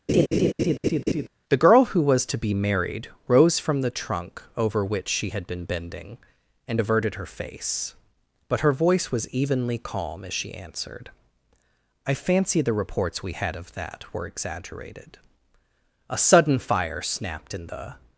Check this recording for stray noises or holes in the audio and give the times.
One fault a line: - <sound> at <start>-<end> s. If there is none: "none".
- laugh at 0.1-1.3 s